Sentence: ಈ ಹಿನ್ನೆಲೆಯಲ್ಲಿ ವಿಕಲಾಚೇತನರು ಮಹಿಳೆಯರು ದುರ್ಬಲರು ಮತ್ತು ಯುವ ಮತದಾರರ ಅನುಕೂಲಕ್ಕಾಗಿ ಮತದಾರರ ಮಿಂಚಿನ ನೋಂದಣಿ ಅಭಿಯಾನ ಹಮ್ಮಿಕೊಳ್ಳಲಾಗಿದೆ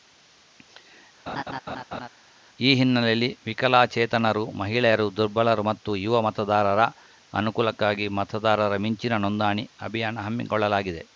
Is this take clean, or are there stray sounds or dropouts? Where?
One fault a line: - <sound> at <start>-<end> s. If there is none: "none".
- laugh at 1.3-2.1 s